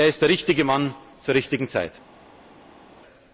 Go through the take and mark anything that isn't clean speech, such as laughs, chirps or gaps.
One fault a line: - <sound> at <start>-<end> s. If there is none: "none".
none